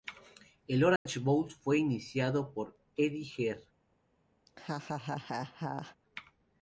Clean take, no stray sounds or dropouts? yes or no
no